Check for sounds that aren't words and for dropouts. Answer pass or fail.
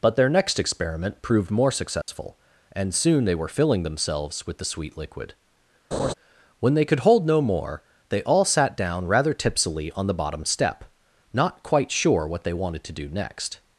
fail